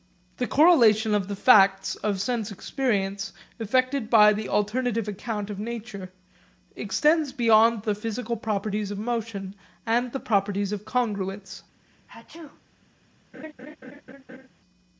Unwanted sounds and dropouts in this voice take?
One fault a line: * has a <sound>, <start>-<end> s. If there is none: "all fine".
* has a sneeze, 11.8-12.6 s
* has a laugh, 13.3-14.5 s